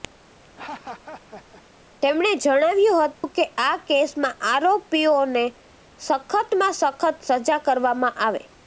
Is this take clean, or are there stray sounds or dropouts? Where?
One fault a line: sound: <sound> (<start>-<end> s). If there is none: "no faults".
sound: laugh (0.4-1.6 s)
sound: dropout (3.1-3.2 s)